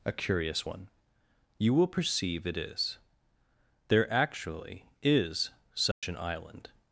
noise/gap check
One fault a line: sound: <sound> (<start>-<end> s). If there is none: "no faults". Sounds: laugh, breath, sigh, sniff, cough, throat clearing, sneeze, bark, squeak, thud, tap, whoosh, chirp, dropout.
sound: dropout (5.9-6.0 s)